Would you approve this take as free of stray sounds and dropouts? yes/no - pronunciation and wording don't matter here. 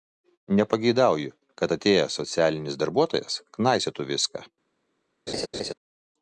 no